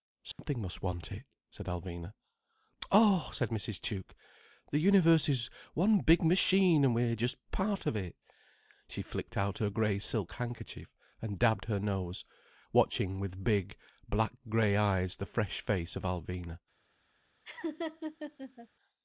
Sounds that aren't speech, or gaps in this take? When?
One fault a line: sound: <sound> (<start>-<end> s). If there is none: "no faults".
sound: dropout (0.3-0.4 s)
sound: laugh (17.5-18.7 s)